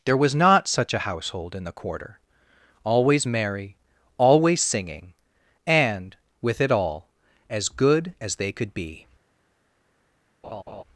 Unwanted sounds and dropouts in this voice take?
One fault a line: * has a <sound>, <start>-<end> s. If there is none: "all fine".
* has a laugh, 10.4-10.8 s